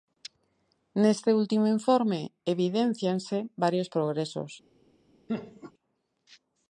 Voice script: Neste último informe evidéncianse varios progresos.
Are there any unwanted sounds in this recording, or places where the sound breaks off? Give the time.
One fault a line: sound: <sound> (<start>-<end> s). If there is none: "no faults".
sound: laugh (5.3-5.7 s)